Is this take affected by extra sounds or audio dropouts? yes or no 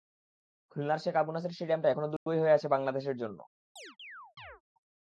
yes